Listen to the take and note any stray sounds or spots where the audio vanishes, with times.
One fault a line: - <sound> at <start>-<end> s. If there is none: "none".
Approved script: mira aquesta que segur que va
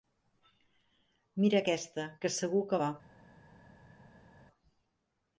none